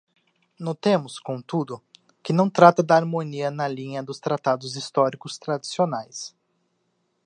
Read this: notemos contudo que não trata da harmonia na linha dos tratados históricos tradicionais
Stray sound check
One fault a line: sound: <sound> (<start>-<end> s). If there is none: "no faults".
no faults